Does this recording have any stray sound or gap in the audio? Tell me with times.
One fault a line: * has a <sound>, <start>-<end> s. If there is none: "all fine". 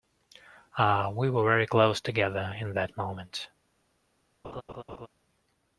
* has a laugh, 4.4-5.1 s